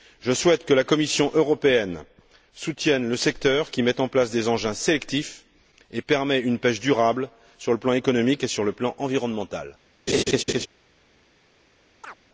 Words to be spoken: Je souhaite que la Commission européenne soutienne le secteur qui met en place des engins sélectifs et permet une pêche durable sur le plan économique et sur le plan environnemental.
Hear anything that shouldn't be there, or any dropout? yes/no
yes